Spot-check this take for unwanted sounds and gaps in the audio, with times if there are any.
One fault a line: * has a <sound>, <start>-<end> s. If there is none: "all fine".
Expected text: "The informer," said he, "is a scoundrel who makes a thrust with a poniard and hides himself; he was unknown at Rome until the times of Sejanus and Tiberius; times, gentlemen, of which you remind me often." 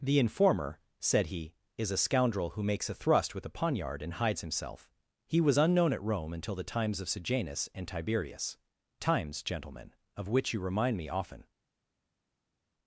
all fine